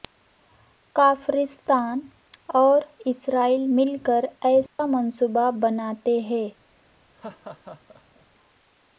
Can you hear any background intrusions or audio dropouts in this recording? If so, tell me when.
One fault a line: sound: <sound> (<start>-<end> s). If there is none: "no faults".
sound: dropout (4.7-4.8 s)
sound: laugh (7.1-8.3 s)